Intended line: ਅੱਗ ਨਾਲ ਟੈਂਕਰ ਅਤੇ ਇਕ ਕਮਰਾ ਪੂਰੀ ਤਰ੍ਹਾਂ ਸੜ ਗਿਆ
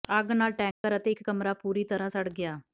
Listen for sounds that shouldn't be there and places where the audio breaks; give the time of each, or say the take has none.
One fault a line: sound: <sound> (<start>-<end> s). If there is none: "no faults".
sound: dropout (0.7-0.8 s)